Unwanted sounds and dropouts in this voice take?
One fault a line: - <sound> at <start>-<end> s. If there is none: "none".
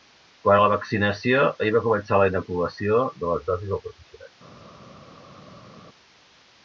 none